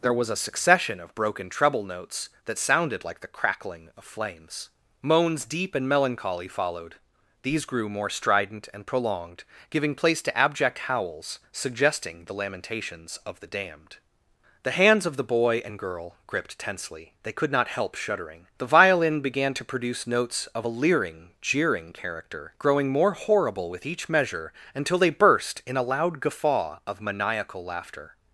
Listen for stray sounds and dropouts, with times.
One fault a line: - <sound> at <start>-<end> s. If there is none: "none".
none